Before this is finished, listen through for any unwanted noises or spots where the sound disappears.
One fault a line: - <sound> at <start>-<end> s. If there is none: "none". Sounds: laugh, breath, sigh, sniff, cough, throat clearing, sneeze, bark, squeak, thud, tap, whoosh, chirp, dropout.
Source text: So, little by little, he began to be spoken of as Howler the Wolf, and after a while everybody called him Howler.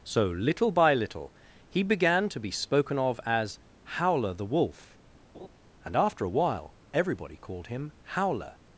- laugh at 5.3-5.5 s